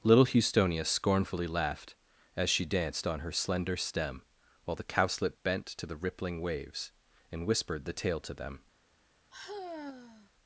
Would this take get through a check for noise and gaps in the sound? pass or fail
fail